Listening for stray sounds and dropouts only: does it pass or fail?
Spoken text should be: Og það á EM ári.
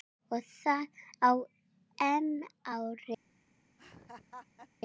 fail